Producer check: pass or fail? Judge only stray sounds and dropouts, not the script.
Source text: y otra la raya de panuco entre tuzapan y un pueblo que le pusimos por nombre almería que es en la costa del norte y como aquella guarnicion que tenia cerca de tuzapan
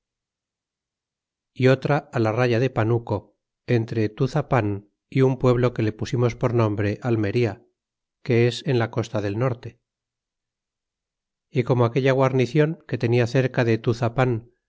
pass